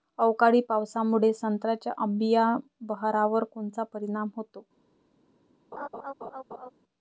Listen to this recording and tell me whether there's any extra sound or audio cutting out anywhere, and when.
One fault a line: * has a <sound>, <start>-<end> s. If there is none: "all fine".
* has a laugh, 5.7-6.7 s